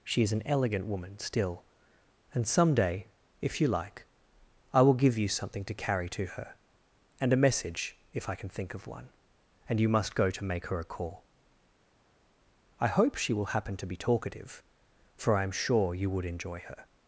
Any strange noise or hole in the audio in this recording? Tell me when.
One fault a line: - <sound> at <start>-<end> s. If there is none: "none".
none